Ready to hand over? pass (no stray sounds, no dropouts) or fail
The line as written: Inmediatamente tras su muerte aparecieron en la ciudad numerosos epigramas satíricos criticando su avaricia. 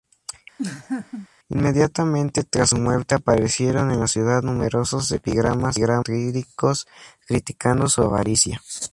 fail